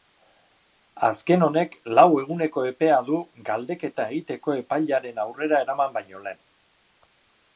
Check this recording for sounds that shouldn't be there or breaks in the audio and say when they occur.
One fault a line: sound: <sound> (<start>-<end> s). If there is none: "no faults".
no faults